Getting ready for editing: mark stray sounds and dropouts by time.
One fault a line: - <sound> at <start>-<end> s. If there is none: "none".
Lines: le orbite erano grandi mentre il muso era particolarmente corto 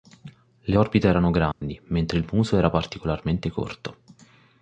- dropout at 1.5-1.6 s